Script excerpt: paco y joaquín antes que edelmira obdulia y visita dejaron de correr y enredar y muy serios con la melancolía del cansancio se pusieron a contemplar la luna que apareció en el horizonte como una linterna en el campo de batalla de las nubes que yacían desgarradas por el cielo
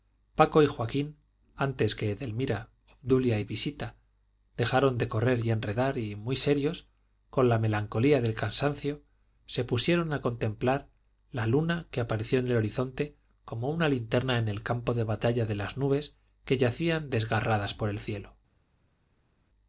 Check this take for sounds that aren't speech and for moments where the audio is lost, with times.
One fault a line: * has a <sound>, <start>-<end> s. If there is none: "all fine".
all fine